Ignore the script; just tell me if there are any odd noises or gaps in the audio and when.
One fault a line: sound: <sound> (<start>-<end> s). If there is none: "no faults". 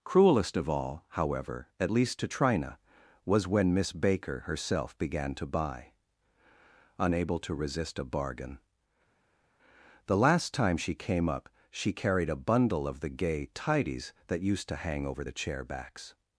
no faults